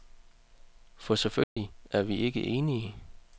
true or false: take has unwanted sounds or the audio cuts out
true